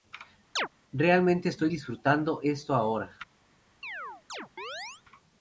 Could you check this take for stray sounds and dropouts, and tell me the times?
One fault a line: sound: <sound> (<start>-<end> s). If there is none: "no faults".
sound: chirp (0.6-0.7 s)
sound: chirp (3.8-5.0 s)